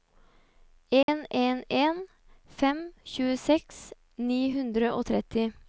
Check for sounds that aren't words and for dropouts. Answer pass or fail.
fail